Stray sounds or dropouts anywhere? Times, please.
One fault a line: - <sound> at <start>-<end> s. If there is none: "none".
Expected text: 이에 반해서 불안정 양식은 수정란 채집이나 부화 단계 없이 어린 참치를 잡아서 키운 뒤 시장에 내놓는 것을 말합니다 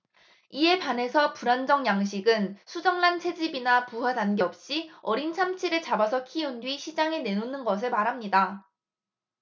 none